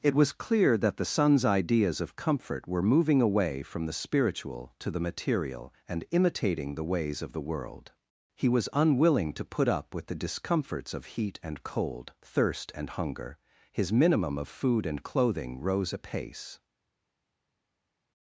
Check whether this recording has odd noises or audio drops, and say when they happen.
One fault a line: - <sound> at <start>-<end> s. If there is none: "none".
none